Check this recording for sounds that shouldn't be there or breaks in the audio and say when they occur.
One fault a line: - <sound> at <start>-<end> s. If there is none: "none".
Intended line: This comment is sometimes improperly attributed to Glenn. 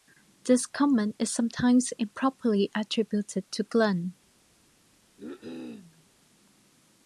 - cough at 5.2-6.1 s